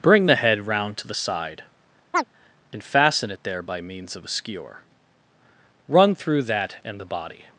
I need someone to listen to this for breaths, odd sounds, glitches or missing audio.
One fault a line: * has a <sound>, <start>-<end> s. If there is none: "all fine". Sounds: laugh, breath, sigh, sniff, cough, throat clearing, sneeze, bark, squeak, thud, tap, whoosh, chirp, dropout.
* has a chirp, 2.1-2.2 s